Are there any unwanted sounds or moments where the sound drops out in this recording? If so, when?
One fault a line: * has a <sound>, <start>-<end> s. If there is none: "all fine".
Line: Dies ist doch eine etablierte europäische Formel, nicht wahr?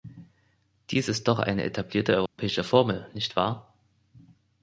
* has a dropout, 2.3-2.4 s